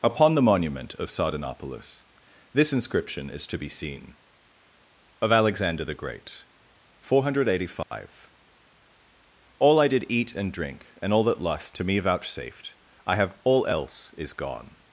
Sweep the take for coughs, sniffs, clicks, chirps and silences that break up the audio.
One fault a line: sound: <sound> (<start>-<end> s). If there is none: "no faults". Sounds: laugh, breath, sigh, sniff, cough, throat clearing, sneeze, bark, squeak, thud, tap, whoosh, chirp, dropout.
sound: dropout (7.8-7.9 s)